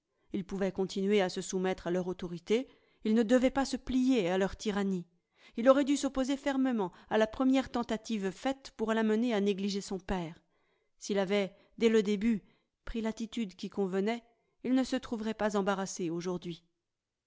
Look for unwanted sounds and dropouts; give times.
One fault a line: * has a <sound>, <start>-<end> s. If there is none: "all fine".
all fine